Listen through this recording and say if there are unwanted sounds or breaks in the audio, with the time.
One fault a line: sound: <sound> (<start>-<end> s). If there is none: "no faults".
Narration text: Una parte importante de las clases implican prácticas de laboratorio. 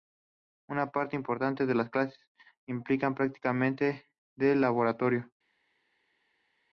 no faults